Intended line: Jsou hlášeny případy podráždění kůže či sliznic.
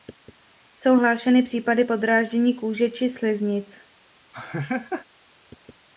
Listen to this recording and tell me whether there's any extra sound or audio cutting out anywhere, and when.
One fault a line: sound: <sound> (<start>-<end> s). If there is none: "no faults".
sound: laugh (4.3-5.1 s)